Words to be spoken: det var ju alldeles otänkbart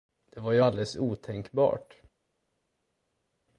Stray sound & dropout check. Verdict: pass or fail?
pass